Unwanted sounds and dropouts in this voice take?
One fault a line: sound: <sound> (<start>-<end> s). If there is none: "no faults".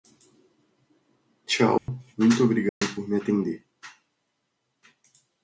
sound: dropout (1.8-1.9 s)
sound: dropout (2.7-2.8 s)